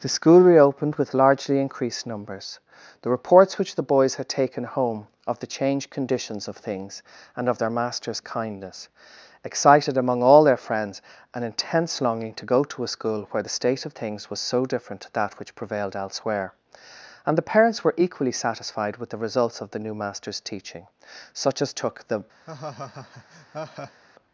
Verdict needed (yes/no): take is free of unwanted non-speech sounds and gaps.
no